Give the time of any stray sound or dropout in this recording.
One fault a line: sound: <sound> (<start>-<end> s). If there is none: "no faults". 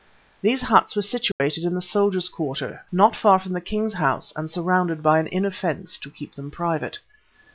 sound: dropout (1.3-1.4 s)